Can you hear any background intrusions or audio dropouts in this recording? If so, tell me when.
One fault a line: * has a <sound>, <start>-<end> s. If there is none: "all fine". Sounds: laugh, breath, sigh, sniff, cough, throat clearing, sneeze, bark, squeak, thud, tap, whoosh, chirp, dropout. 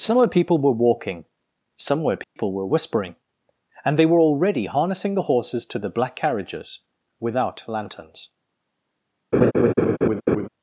* has a dropout, 2.2-2.4 s
* has a laugh, 9.3-10.5 s